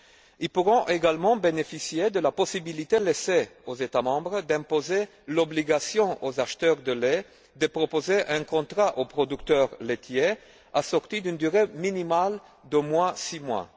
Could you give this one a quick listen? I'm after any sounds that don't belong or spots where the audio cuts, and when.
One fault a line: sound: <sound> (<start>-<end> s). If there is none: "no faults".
no faults